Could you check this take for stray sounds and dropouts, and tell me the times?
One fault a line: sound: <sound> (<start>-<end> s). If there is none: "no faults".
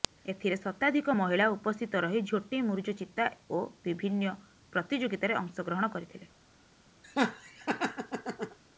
sound: laugh (7.0-8.6 s)